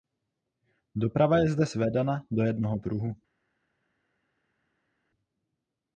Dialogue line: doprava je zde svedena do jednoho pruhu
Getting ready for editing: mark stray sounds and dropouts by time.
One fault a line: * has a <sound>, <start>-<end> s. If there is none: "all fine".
all fine